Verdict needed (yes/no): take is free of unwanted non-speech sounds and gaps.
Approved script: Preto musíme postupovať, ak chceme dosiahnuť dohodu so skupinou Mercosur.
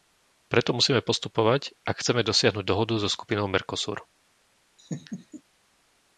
no